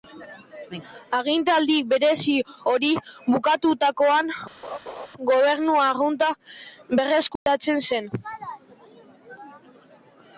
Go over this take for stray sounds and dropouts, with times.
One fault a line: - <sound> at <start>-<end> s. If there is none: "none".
- laugh at 4.6-5.1 s
- dropout at 7.4-7.5 s